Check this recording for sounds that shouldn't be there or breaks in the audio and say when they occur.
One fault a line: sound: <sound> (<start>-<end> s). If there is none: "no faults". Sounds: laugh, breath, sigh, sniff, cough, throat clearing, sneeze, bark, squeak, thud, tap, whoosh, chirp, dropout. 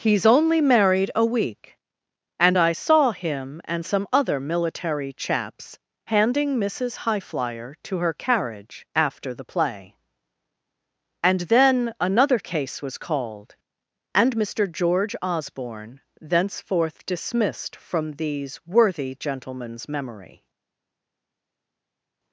no faults